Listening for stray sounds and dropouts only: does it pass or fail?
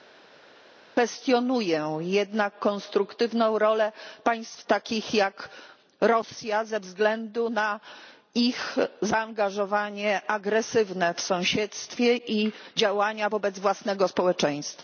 pass